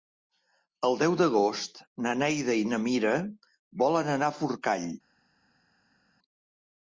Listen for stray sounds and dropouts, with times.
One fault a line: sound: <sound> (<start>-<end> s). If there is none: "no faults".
no faults